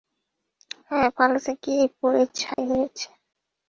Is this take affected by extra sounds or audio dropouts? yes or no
yes